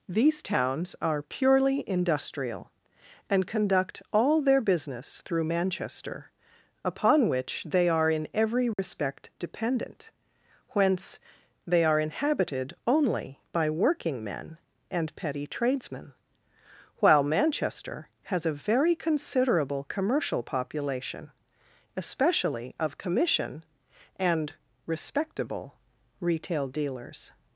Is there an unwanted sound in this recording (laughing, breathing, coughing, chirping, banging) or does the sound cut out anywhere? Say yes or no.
yes